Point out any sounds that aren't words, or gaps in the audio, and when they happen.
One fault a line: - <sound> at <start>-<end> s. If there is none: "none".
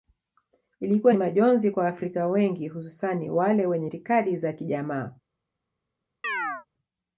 - chirp at 6.2-6.7 s